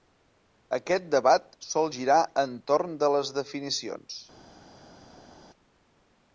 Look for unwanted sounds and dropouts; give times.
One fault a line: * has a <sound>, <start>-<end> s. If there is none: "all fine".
all fine